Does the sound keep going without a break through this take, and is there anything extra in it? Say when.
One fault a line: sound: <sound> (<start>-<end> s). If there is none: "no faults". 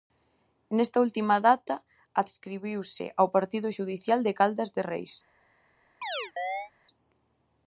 sound: chirp (6.0-6.7 s)